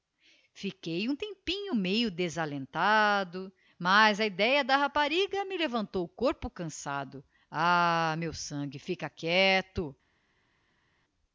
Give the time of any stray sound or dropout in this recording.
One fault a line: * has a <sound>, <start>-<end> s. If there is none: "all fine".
all fine